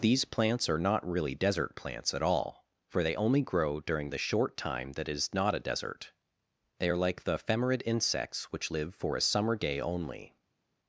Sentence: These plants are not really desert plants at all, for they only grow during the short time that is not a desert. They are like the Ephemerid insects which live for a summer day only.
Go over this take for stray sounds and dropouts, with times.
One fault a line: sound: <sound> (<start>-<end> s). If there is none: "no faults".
no faults